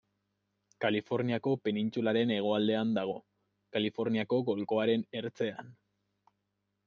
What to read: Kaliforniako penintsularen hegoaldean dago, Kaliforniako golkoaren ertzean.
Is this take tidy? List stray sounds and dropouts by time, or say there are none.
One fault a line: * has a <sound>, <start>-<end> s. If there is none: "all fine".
all fine